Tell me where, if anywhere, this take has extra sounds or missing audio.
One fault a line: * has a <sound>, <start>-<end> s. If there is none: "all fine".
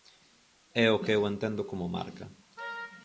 all fine